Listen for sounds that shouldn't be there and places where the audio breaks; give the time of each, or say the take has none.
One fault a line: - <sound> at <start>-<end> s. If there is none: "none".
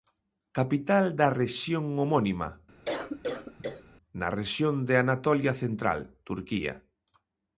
- cough at 2.8-3.8 s